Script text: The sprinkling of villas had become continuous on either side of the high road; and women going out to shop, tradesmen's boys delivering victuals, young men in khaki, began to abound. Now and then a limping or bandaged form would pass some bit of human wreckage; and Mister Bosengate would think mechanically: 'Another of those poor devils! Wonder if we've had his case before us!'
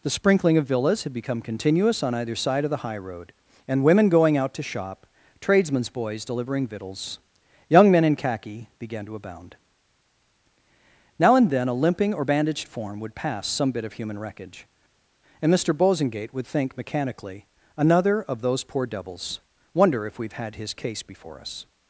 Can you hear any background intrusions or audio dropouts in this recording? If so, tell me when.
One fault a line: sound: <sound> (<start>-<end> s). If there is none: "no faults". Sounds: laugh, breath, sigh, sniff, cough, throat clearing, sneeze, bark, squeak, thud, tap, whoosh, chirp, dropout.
no faults